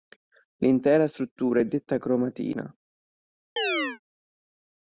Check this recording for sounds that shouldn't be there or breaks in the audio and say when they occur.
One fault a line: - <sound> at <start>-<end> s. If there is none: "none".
- chirp at 3.6-4.0 s